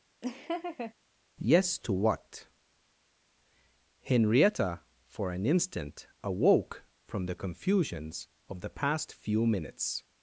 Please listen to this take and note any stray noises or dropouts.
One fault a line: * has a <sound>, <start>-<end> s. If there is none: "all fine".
* has a laugh, 0.2-0.9 s